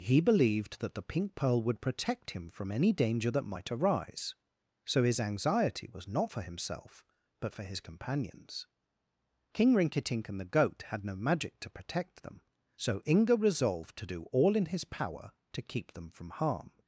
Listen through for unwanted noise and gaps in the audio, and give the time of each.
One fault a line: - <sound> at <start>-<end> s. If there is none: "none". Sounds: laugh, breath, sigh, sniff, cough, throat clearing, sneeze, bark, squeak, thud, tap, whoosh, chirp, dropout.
none